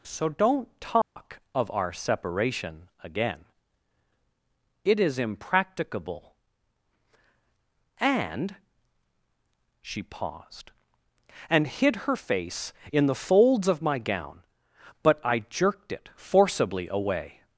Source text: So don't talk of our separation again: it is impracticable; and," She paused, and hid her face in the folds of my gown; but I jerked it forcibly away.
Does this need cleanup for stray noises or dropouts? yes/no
yes